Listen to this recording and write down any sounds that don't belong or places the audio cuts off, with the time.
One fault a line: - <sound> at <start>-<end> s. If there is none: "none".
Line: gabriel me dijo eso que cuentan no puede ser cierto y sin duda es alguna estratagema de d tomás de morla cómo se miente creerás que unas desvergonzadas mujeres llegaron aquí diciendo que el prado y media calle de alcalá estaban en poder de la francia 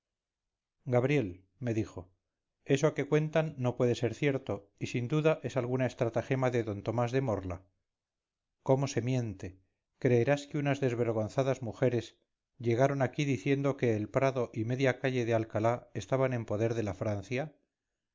none